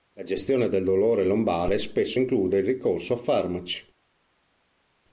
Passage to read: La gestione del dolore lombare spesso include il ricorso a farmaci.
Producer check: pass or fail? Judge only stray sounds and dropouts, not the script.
pass